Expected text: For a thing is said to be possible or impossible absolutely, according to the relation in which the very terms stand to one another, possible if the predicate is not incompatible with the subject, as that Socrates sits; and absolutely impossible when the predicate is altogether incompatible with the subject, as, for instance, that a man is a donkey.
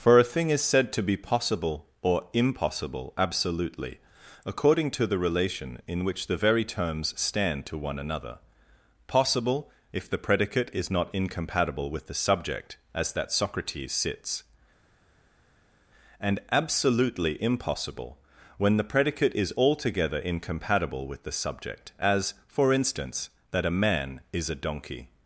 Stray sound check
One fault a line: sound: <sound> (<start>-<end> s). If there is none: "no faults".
no faults